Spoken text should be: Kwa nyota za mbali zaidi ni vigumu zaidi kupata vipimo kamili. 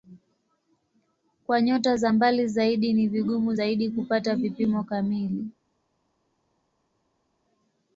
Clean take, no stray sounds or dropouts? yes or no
yes